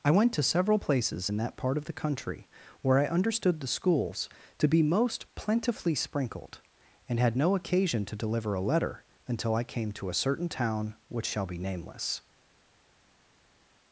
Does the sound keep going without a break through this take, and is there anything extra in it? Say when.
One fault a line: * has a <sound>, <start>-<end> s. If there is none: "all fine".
all fine